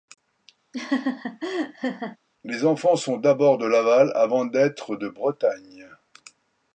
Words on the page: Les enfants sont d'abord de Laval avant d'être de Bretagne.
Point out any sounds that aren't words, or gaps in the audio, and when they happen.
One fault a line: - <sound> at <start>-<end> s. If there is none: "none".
- laugh at 0.7-2.2 s